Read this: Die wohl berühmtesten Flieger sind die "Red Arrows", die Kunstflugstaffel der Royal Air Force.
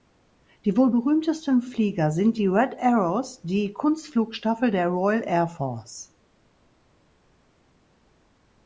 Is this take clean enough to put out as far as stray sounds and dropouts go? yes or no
yes